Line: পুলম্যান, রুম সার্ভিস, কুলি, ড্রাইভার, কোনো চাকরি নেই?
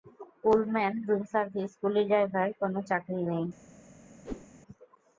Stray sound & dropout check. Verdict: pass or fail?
fail